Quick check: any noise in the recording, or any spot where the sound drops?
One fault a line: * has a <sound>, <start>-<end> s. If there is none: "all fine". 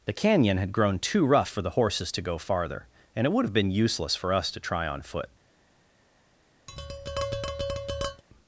* has a tap, 6.7-8.2 s